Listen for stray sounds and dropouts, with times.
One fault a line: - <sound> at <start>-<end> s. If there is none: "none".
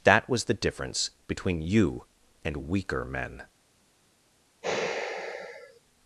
- sigh at 4.6-5.8 s